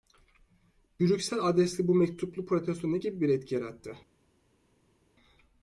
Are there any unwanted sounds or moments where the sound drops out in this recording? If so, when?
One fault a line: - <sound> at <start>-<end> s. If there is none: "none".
none